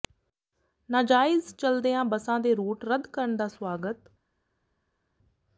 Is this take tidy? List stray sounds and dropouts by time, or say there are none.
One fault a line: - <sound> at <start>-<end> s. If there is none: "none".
none